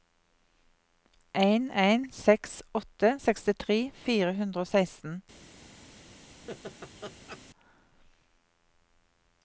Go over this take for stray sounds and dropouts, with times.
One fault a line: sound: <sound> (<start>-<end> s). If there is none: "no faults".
sound: laugh (6.5-7.4 s)